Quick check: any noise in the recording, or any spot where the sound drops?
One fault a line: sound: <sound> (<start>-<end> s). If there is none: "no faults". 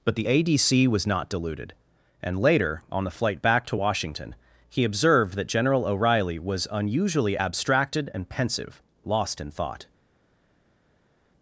no faults